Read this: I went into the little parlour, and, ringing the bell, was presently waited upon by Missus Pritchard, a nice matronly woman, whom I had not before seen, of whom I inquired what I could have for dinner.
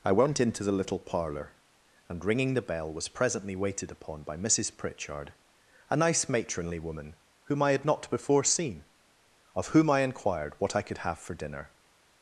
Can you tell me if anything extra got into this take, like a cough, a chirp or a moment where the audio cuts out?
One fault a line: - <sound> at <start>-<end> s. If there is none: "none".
none